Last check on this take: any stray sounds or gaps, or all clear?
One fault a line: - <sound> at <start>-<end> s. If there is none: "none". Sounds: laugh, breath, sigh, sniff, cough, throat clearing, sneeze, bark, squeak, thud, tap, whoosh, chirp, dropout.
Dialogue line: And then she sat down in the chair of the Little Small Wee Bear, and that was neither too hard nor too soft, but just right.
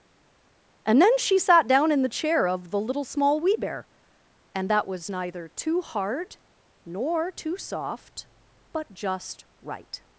none